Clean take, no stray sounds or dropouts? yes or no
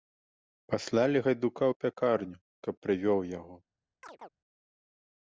no